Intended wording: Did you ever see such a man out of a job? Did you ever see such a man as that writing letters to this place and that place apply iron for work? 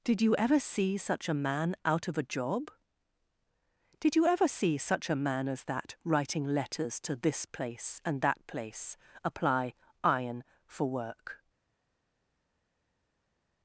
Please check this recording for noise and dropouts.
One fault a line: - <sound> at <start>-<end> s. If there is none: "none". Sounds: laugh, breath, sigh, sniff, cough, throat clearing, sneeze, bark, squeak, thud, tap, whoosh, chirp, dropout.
none